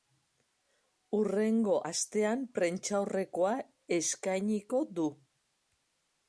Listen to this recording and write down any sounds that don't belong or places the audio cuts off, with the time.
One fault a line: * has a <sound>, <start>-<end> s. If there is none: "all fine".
all fine